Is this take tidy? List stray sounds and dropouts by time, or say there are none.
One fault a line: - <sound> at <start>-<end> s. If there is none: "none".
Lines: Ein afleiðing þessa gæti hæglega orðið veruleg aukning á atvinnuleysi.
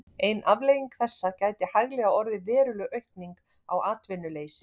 none